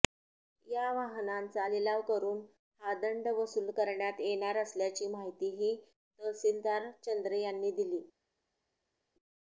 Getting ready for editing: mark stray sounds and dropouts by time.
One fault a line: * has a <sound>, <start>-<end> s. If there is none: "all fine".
all fine